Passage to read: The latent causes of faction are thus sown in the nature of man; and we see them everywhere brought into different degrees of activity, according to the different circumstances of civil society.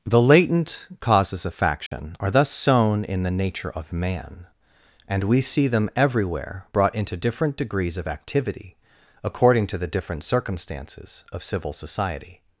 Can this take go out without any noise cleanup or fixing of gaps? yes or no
no